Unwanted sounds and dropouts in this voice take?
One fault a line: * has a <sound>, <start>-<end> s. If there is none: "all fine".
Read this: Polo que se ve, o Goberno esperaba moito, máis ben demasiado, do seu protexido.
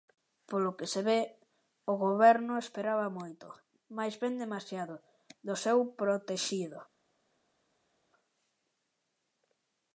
all fine